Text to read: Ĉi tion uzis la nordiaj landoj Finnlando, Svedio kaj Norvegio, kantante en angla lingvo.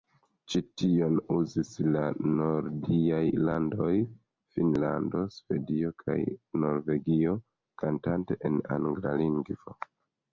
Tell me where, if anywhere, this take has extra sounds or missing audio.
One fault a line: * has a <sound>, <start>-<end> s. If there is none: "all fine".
all fine